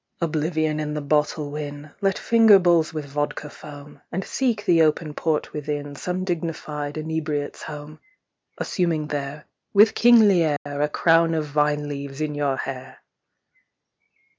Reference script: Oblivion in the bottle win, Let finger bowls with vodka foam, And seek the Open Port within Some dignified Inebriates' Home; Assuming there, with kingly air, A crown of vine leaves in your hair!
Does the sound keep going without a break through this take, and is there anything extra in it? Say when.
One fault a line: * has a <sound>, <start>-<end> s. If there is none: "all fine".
* has a dropout, 10.6-10.7 s